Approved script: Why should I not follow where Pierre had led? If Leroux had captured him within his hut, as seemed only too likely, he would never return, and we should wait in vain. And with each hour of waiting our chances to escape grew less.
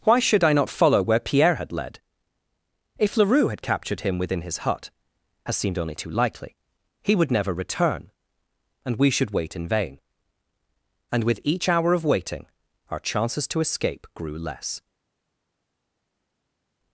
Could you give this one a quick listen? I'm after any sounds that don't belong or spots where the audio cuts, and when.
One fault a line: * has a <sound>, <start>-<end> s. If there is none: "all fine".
all fine